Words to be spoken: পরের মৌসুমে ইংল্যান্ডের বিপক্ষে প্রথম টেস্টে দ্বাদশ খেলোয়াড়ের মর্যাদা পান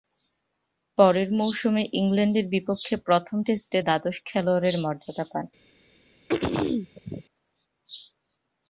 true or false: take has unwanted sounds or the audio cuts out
true